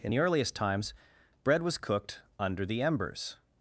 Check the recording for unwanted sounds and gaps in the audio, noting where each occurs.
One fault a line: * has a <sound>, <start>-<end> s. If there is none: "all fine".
all fine